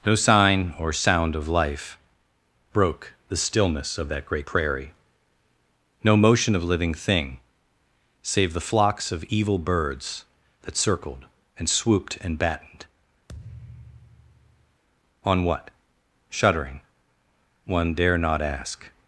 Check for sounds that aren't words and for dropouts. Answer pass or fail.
fail